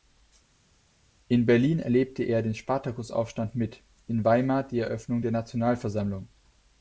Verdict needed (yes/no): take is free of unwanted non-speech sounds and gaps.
yes